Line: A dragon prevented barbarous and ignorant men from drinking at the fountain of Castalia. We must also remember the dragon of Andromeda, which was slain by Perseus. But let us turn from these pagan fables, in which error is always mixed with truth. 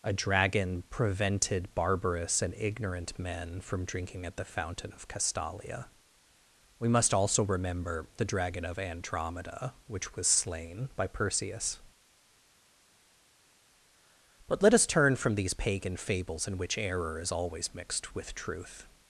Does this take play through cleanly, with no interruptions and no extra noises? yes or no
yes